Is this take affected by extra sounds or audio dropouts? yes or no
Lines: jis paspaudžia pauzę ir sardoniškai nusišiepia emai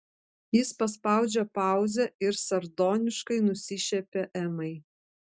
no